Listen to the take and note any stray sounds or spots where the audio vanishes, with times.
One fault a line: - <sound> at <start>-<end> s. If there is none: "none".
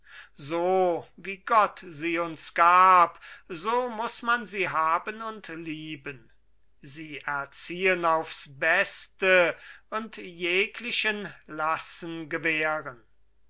none